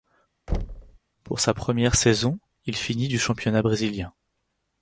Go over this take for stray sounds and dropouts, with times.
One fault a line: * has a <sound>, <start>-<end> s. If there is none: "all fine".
* has a thud, 0.5-1.0 s